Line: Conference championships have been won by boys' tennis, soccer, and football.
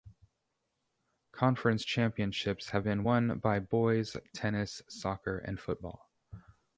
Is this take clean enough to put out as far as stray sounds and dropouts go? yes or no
yes